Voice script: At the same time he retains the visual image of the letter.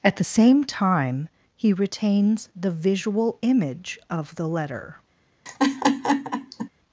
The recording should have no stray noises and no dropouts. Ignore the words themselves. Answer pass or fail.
fail